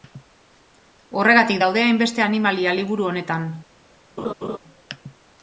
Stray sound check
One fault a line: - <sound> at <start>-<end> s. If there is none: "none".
- laugh at 4.2-4.6 s